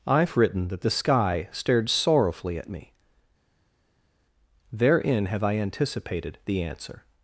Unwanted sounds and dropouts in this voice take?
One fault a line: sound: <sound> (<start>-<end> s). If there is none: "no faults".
no faults